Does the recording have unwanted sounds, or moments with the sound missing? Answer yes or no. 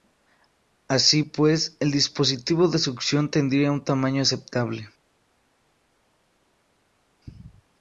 no